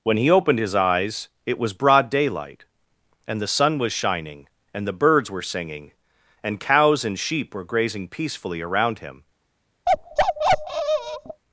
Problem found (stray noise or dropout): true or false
true